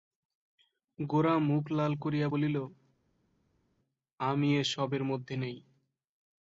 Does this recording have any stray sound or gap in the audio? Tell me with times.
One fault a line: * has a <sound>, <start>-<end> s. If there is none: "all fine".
all fine